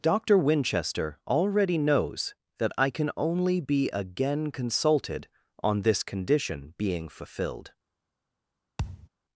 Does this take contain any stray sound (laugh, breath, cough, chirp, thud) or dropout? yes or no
yes